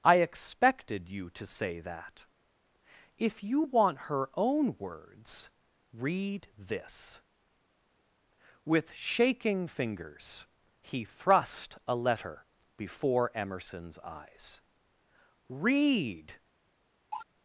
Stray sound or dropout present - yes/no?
yes